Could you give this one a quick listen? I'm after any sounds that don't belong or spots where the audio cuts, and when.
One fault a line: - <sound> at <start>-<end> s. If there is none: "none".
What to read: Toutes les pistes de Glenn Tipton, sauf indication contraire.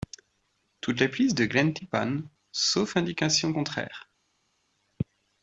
none